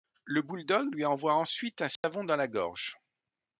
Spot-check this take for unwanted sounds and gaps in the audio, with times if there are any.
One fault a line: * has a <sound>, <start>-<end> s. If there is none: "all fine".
* has a dropout, 2.0-2.0 s